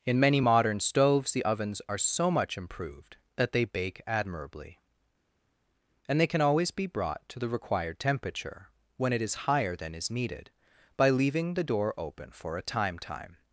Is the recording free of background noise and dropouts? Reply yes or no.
yes